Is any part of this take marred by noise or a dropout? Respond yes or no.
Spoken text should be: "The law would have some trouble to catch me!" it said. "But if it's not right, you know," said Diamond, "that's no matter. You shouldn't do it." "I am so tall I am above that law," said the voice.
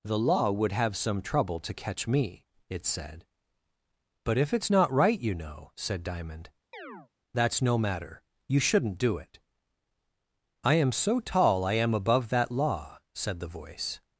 yes